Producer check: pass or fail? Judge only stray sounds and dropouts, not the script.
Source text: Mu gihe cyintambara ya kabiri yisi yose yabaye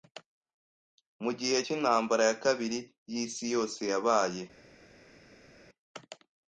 pass